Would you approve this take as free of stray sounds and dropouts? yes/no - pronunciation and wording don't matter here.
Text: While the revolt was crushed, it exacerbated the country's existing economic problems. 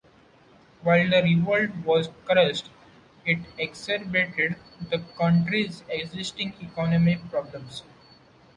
yes